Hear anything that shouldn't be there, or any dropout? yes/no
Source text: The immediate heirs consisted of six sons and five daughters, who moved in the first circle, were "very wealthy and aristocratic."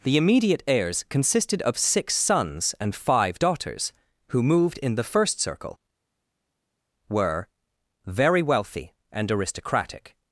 no